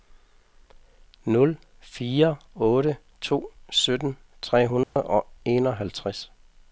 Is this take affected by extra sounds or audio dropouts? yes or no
yes